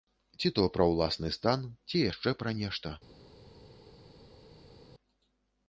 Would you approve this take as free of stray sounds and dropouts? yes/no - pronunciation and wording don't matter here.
yes